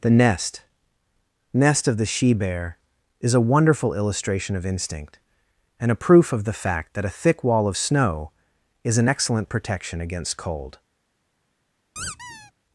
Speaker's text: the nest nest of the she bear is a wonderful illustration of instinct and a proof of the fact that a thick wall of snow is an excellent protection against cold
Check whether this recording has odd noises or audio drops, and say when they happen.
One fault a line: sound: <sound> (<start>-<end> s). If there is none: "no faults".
sound: squeak (12.0-12.5 s)